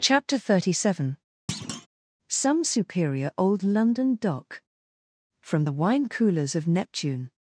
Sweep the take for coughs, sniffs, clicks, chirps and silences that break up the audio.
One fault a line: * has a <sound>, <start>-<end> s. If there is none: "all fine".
* has a thud, 1.5-1.9 s